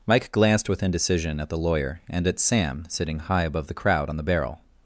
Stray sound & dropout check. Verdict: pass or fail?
pass